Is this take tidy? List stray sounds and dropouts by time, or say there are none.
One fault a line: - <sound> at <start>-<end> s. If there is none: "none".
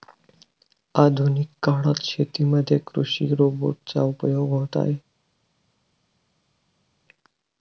none